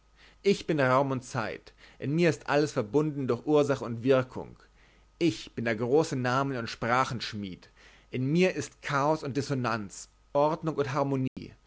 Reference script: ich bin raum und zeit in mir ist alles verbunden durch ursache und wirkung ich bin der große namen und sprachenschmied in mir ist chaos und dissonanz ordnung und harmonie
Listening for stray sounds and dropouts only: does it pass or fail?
fail